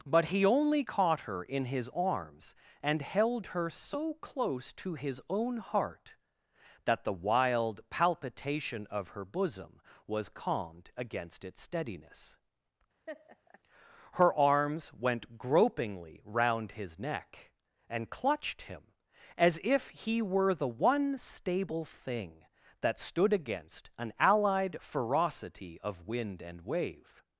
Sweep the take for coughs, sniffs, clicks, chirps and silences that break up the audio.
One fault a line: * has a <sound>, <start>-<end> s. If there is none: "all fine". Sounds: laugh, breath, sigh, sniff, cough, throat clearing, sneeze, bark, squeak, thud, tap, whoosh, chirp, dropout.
* has a laugh, 13.1-13.6 s